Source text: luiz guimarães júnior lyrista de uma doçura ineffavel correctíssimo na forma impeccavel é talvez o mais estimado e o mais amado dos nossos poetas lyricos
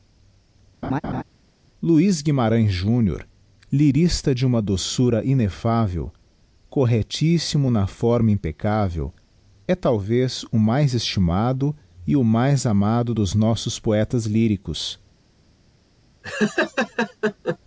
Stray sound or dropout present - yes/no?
yes